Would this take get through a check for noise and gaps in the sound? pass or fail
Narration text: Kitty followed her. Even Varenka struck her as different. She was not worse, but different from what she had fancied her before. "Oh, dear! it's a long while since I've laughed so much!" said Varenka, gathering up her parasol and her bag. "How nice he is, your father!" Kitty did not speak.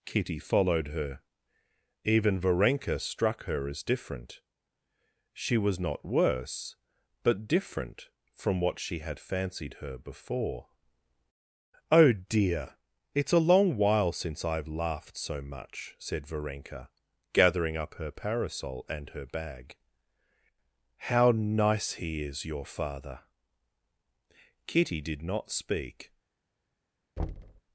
fail